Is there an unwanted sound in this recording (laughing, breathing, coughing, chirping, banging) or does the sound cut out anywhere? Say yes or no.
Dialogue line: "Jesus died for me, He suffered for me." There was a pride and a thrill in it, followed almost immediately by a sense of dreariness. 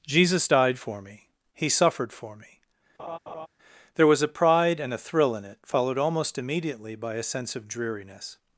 yes